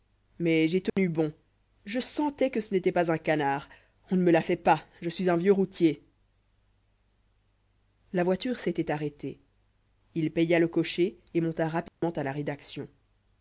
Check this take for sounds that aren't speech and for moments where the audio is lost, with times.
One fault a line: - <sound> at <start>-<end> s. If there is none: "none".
- dropout at 0.9-1.0 s
- dropout at 11.9-12.0 s